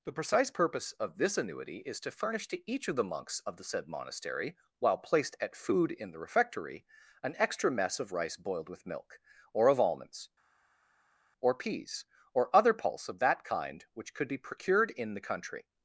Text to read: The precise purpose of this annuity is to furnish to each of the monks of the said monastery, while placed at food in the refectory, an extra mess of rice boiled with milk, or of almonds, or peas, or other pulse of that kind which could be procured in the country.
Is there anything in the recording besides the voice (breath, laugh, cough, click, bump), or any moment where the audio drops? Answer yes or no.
no